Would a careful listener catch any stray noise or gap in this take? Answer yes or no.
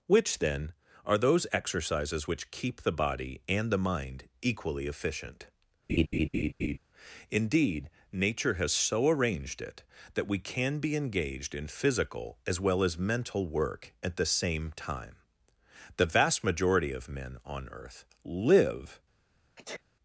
yes